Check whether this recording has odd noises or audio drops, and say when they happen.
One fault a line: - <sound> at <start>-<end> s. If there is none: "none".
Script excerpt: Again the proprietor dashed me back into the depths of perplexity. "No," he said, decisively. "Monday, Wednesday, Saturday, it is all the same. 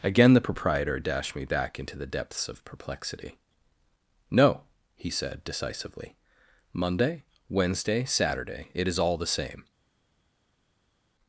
none